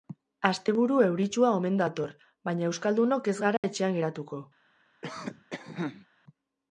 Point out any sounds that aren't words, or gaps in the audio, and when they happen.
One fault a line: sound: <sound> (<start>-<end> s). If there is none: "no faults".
sound: dropout (3.6-3.6 s)
sound: cough (5.0-6.1 s)